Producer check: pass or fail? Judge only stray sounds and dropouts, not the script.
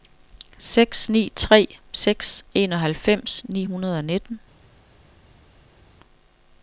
pass